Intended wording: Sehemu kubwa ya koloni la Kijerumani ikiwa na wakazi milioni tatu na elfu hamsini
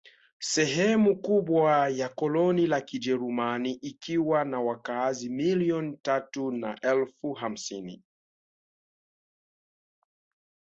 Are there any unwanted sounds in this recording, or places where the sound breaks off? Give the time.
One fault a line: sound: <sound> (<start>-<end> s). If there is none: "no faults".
no faults